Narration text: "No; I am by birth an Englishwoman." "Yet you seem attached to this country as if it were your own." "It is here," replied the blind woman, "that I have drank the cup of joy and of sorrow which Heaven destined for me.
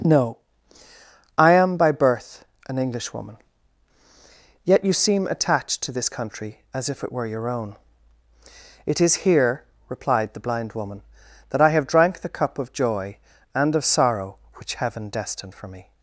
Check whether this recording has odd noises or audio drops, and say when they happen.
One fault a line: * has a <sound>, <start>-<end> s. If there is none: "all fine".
all fine